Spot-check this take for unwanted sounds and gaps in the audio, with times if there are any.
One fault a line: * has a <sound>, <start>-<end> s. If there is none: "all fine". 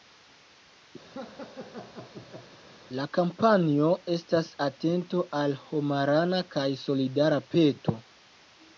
* has a laugh, 1.0-2.6 s